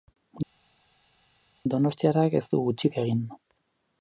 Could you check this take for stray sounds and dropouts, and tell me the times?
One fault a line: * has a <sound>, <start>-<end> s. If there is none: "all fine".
all fine